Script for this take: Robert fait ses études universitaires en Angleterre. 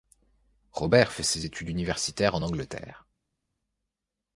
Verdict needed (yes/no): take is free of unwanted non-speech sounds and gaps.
yes